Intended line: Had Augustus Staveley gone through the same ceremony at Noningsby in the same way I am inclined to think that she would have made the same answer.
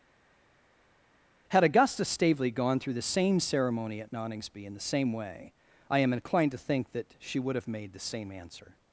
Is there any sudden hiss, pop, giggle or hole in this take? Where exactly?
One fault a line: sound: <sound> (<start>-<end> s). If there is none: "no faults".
no faults